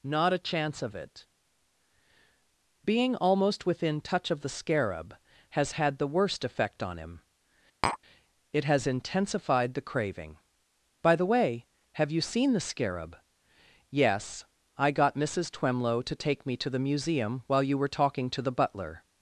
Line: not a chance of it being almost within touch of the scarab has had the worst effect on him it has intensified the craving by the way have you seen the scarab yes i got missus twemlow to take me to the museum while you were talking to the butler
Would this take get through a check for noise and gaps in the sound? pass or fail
fail